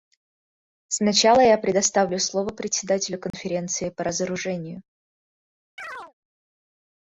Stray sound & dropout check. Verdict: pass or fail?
fail